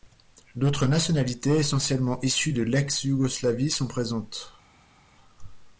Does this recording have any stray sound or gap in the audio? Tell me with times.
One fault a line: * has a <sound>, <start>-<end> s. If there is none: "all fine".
all fine